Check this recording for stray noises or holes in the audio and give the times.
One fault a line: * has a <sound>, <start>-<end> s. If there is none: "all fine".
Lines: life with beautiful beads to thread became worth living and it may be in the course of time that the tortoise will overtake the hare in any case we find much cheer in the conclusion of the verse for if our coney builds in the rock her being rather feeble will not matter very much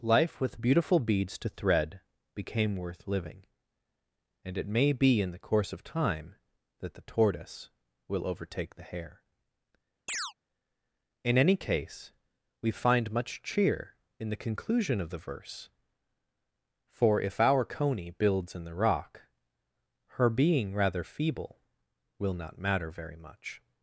* has a chirp, 10.1-10.3 s